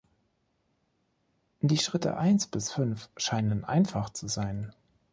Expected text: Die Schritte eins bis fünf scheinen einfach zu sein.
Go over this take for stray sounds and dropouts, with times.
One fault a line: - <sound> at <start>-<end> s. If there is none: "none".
none